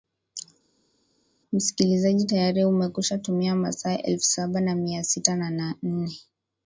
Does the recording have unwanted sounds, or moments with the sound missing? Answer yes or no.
no